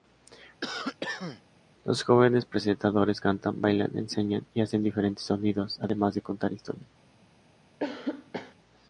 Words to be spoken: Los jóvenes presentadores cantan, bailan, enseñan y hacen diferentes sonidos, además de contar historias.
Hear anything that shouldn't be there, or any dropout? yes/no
yes